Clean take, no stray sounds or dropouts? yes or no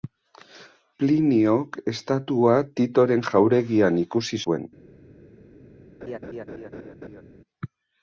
no